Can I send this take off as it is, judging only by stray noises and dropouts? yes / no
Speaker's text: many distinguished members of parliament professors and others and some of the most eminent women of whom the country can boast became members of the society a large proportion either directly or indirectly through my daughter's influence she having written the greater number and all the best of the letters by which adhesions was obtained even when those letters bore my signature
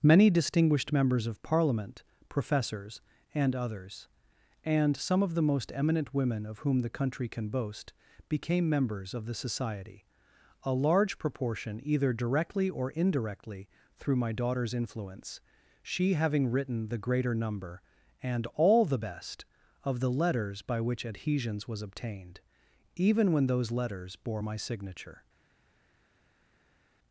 yes